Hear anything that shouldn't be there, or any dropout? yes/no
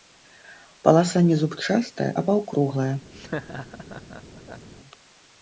yes